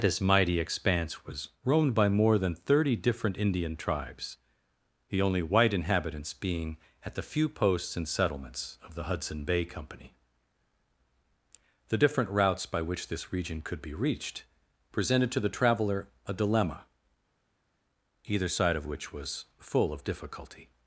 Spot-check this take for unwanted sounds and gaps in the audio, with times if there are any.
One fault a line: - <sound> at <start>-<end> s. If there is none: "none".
none